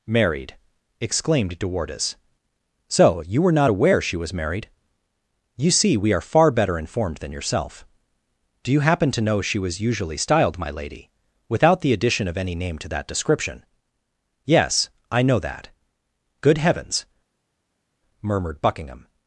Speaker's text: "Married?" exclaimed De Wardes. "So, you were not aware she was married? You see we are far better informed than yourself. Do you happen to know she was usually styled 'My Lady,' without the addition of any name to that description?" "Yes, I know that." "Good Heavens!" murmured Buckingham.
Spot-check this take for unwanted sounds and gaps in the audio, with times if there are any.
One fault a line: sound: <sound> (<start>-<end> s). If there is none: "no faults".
no faults